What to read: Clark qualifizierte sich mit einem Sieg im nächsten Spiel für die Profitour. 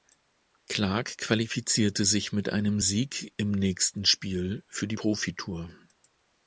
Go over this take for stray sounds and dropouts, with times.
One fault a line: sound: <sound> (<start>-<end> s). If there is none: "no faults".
no faults